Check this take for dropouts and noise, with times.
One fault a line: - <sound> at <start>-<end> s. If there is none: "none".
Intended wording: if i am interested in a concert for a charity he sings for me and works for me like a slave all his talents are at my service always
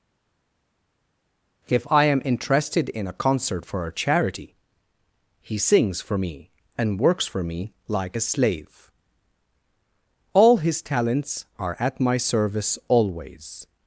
none